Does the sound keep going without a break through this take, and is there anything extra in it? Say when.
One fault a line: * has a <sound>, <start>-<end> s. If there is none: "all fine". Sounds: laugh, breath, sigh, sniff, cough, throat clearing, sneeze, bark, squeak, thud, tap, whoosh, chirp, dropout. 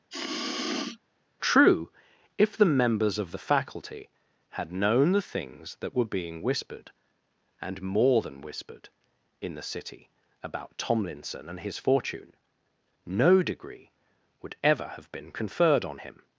* has a sniff, 0.1-1.0 s